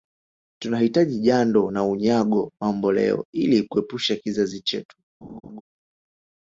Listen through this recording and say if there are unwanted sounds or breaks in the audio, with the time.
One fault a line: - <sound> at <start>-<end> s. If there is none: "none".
- laugh at 5.2-5.6 s